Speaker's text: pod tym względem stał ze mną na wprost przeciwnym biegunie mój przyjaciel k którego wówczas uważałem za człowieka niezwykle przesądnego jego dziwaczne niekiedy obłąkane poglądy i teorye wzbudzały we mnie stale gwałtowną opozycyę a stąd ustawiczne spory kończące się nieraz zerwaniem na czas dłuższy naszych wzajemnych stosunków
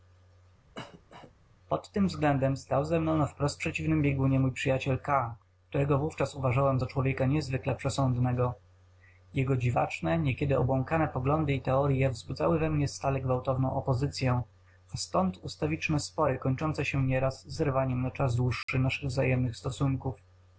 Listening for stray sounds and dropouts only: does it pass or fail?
fail